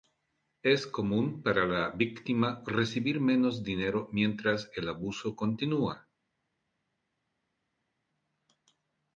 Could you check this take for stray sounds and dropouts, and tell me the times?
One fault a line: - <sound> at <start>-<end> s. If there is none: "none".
none